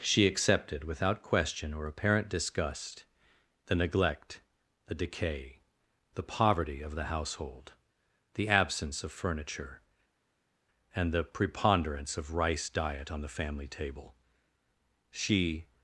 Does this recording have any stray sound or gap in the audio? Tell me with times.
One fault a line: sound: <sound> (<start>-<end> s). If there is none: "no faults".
no faults